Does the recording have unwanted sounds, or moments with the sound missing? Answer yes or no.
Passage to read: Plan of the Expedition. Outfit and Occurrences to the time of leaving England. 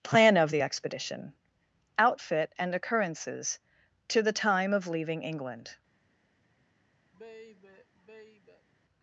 yes